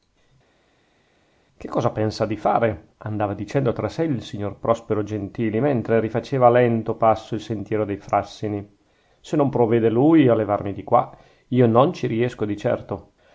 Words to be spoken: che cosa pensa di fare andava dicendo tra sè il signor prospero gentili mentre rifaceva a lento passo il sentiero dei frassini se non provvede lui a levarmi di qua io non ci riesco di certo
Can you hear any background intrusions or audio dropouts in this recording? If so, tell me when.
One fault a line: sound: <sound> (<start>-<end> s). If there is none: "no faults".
no faults